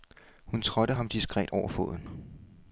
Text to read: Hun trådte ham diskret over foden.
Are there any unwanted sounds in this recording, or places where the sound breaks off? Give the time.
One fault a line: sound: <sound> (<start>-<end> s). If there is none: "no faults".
no faults